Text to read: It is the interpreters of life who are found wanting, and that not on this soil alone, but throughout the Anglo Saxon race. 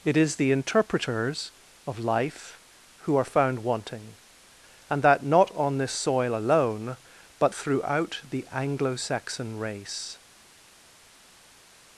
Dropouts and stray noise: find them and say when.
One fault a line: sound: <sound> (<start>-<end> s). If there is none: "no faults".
no faults